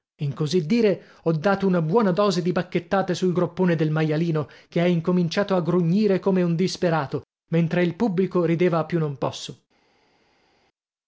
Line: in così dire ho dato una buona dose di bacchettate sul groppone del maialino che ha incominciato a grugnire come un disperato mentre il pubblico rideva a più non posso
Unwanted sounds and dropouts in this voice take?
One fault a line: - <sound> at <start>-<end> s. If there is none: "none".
none